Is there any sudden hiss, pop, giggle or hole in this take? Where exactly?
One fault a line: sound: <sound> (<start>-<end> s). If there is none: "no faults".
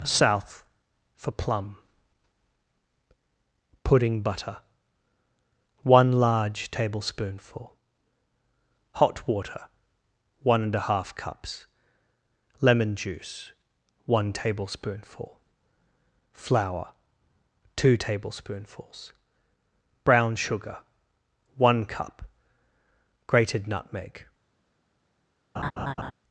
sound: laugh (25.5-26.1 s)